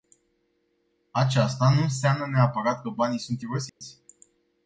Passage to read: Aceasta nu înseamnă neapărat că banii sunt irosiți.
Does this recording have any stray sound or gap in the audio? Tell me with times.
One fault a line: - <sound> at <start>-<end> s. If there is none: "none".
- dropout at 3.7-3.8 s